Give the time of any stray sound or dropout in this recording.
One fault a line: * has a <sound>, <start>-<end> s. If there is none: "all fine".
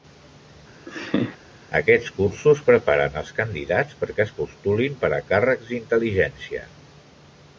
* has a laugh, 0.9-1.4 s